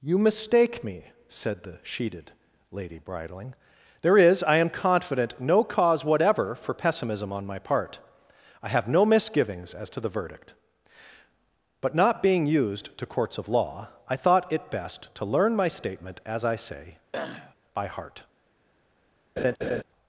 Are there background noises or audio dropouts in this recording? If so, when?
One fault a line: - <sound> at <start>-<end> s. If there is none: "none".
- throat clearing at 17.1-17.6 s
- laugh at 19.4-19.8 s